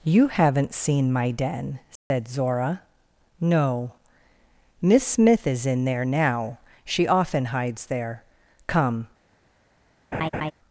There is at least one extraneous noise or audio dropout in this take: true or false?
true